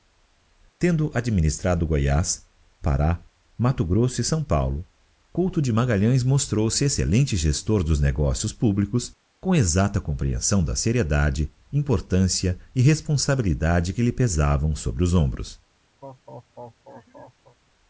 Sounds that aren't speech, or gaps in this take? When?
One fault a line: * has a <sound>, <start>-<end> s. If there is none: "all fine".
* has a laugh, 16.0-17.6 s